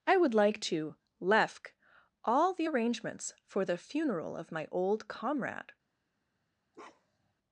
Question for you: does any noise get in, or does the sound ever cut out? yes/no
yes